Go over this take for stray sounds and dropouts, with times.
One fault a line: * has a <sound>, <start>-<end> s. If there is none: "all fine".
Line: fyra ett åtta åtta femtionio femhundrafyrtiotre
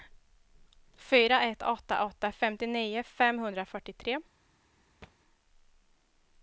* has a thud, 5.0-5.2 s